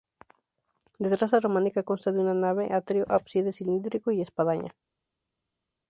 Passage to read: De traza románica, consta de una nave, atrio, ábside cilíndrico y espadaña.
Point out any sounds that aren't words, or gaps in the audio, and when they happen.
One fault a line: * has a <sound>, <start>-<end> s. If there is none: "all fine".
all fine